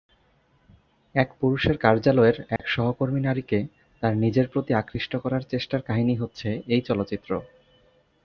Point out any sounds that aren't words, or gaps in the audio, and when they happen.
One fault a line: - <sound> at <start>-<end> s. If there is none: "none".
- dropout at 2.6-2.6 s